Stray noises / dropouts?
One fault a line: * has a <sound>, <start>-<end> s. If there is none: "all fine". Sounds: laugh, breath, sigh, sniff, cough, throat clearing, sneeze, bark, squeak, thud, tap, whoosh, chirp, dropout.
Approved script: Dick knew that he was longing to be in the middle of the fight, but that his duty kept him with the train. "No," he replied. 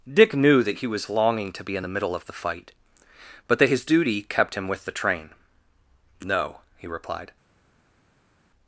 all fine